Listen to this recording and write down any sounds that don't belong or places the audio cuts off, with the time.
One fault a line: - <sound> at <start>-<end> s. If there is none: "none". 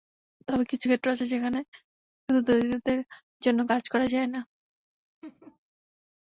- laugh at 5.2-5.6 s